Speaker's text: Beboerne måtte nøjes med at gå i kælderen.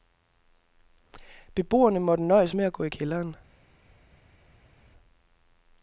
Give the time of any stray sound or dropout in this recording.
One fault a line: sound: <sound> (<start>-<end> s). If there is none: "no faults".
no faults